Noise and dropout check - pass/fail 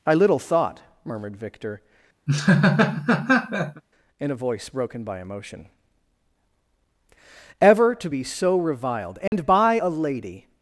fail